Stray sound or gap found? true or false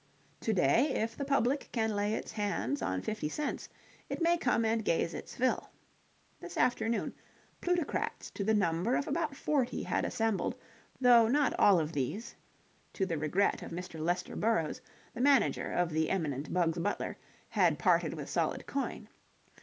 false